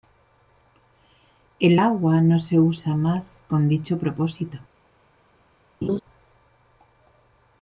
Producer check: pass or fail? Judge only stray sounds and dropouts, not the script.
fail